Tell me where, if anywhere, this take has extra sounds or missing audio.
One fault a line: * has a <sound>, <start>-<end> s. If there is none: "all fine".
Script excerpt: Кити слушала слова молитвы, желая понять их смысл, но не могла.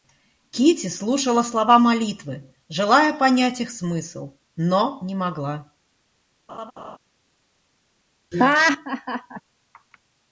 * has a laugh, 6.5-7.0 s
* has a laugh, 8.3-9.4 s